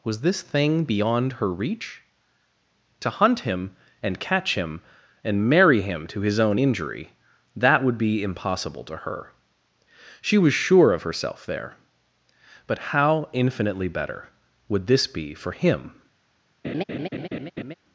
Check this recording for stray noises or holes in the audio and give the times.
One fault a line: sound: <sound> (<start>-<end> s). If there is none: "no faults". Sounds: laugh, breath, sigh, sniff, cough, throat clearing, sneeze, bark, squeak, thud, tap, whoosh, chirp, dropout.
sound: laugh (16.6-17.7 s)